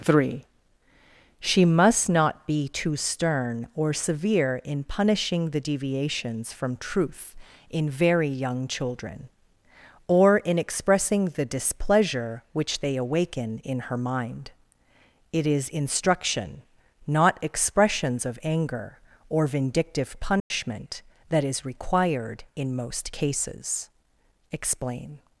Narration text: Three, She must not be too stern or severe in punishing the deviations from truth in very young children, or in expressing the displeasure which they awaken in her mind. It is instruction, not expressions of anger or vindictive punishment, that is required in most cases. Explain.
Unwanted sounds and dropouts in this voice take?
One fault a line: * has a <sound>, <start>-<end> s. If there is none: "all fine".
* has a dropout, 20.4-20.5 s